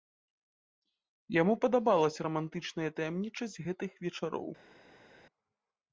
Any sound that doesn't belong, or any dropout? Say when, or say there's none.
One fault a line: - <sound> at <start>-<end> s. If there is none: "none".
none